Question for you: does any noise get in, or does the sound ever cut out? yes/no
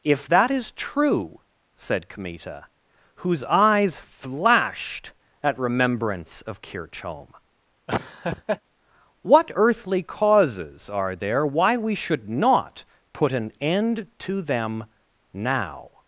yes